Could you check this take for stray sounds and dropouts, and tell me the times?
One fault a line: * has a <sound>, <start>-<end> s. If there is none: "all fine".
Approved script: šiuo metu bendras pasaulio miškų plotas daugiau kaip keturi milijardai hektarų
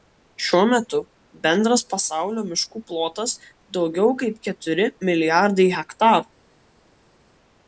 all fine